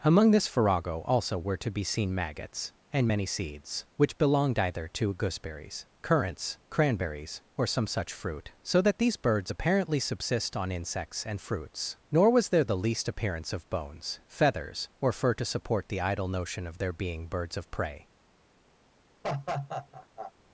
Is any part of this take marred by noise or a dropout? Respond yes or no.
yes